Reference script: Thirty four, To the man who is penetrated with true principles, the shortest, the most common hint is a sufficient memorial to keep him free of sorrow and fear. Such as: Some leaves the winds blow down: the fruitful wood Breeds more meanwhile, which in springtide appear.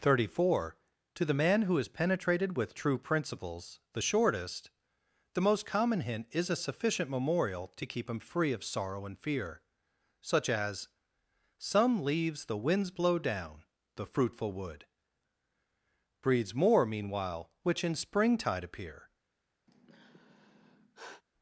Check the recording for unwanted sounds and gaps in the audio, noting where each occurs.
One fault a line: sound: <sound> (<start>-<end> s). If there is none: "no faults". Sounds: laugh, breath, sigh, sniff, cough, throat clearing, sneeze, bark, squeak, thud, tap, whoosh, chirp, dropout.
sound: sigh (19.7-21.2 s)